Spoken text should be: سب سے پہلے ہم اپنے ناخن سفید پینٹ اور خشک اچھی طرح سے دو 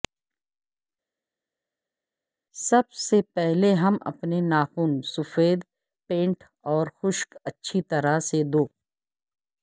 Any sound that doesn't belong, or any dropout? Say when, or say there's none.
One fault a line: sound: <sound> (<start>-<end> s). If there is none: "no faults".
no faults